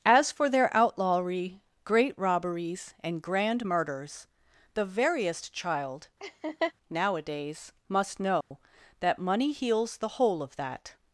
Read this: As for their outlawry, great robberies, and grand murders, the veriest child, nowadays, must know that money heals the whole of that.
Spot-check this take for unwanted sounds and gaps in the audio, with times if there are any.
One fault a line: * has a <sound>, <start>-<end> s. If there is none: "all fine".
* has a laugh, 6.2-6.7 s
* has a dropout, 8.4-8.5 s